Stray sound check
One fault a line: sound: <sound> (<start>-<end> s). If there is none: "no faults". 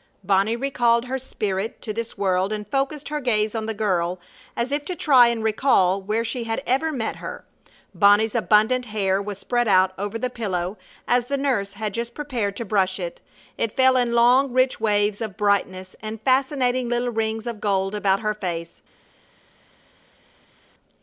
no faults